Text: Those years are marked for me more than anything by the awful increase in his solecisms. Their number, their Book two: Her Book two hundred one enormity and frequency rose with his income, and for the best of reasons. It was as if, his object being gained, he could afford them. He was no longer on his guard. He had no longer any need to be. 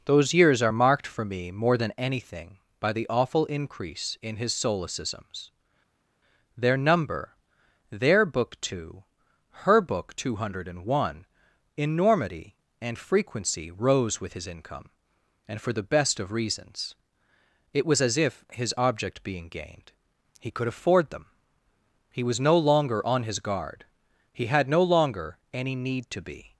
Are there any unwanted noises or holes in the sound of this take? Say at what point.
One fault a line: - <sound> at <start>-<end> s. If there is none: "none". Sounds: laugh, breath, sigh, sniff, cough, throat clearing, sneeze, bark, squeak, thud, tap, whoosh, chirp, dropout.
none